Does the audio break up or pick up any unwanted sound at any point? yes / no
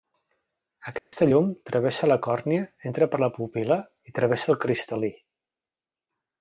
yes